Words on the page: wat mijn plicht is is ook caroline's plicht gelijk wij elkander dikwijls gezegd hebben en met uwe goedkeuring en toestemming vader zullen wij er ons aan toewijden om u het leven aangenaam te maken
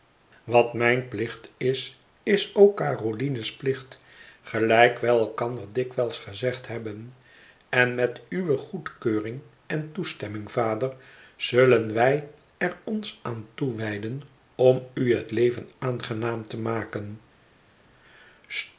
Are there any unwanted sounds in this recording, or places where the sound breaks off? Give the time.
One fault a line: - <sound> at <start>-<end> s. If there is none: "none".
none